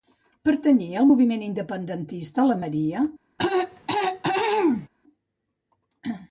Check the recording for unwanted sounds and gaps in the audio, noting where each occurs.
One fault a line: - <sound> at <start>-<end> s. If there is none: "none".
- throat clearing at 3.4-4.9 s